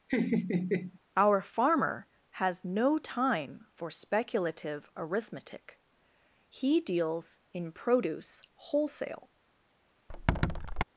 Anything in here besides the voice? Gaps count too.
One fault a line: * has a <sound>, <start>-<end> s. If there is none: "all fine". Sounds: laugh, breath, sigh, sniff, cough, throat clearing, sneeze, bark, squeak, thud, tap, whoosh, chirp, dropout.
* has a laugh, 0.1-1.0 s
* has a squeak, 10.1-10.8 s